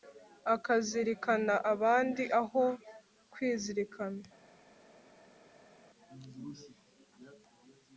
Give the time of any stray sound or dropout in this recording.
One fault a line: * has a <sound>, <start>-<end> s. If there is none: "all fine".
all fine